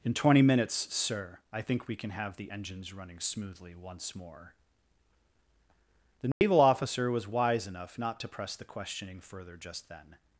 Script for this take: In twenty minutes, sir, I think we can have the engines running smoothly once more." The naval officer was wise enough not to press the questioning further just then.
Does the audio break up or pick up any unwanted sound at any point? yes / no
yes